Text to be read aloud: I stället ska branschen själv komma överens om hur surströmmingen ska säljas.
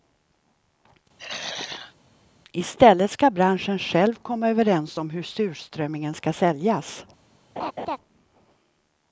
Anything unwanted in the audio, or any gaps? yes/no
yes